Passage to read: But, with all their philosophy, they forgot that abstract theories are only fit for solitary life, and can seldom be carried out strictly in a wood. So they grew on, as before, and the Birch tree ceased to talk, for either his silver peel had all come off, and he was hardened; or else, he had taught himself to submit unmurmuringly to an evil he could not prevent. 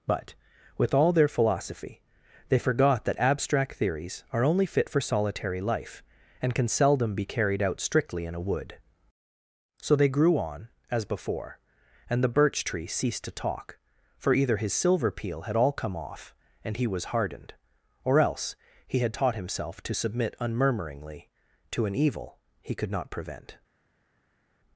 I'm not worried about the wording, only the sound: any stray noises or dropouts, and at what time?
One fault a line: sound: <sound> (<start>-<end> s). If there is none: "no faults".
no faults